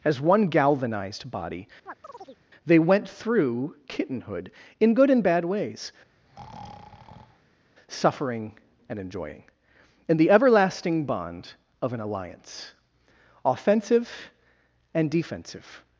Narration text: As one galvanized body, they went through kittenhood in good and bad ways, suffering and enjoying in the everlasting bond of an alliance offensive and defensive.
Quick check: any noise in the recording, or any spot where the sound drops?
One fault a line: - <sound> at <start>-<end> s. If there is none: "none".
- chirp at 1.9-2.4 s
- breath at 6.1-7.6 s